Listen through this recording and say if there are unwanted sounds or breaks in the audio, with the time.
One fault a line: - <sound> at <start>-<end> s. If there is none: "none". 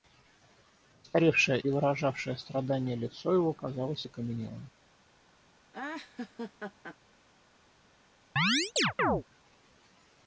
- laugh at 5.7-7.0 s
- chirp at 8.4-9.2 s